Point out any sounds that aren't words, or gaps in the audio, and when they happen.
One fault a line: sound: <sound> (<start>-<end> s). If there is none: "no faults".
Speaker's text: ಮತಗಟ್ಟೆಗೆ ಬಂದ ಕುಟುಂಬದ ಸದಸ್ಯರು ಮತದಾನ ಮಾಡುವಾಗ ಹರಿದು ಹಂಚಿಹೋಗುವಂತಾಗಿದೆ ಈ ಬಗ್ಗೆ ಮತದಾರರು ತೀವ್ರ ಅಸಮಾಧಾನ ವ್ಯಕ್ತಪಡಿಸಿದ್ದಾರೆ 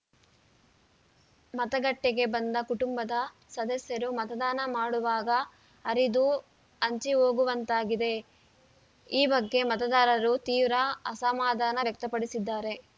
no faults